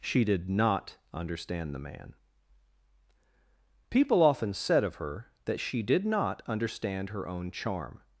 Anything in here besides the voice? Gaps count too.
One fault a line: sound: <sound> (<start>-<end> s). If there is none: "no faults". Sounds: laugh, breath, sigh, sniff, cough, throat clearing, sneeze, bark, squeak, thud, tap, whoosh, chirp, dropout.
no faults